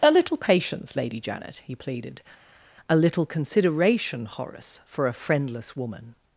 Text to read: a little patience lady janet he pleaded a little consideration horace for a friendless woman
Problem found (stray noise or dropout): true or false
false